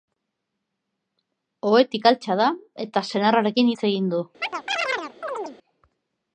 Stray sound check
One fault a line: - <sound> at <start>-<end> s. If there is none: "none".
- chirp at 4.4-5.6 s